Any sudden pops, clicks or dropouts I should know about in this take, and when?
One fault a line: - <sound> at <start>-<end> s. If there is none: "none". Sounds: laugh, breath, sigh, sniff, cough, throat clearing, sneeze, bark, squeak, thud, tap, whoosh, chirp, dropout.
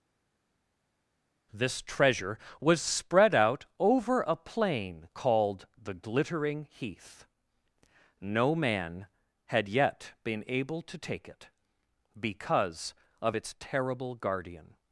none